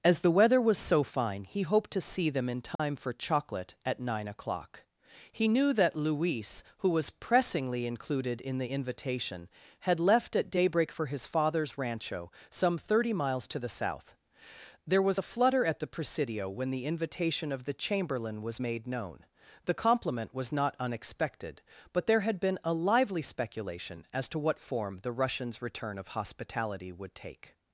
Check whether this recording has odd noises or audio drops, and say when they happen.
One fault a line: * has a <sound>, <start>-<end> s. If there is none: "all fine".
* has a dropout, 2.8-2.8 s